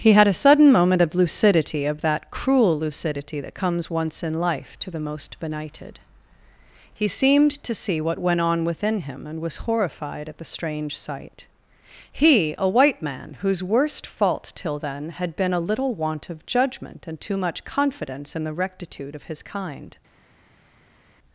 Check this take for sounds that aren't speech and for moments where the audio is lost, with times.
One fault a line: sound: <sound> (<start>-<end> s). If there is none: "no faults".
no faults